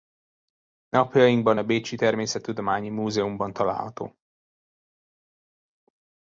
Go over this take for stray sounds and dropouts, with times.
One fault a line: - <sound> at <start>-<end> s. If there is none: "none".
none